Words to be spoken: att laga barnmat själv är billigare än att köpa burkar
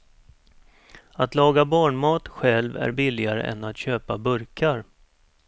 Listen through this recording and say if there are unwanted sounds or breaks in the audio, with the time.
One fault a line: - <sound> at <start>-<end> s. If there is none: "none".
none